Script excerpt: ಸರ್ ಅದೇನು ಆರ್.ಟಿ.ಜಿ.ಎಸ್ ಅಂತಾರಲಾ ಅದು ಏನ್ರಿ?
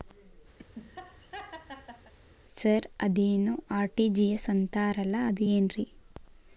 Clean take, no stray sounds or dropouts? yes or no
no